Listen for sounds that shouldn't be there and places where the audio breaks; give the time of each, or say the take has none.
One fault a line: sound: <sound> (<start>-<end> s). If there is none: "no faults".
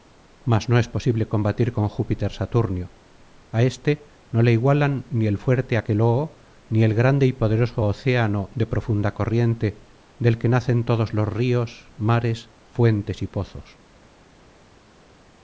no faults